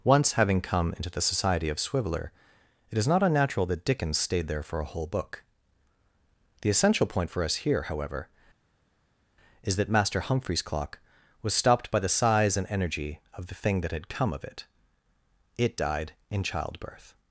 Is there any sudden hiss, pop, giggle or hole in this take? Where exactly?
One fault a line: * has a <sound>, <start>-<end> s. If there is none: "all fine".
all fine